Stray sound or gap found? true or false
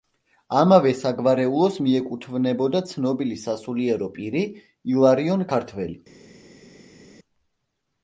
false